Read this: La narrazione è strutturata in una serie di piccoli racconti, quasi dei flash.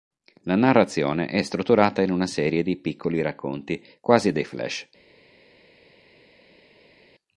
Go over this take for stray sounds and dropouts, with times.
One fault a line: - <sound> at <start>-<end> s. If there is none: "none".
none